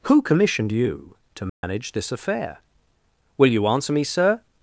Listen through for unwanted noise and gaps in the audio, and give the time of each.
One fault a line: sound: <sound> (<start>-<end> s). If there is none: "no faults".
sound: dropout (1.5-1.6 s)